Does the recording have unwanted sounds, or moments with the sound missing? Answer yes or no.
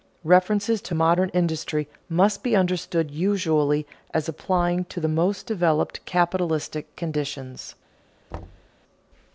yes